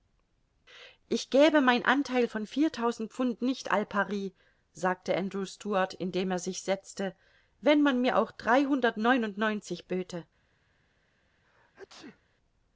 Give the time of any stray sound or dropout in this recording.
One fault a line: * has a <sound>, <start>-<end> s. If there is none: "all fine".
* has a sneeze, 11.4-12.2 s